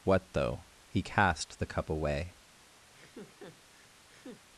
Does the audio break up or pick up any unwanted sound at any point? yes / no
yes